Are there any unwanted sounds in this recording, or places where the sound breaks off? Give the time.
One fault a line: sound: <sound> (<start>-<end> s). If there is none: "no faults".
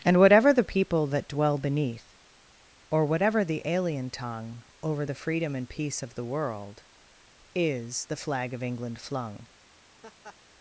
sound: laugh (10.0-10.4 s)